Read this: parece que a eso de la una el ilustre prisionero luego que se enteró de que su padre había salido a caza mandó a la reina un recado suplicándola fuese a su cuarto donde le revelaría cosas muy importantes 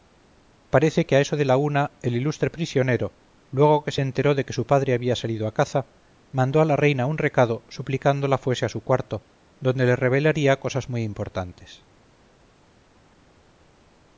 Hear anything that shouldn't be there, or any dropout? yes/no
no